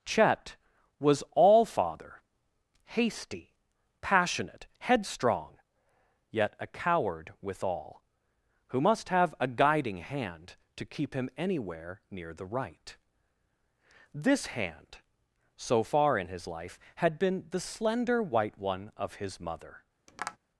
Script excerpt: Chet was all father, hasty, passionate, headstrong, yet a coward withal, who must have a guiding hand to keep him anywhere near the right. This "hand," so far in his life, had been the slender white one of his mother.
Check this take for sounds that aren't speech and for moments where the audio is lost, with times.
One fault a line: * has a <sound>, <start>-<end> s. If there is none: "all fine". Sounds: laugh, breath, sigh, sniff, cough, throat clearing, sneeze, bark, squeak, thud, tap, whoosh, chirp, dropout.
* has a tap, 20.1-20.4 s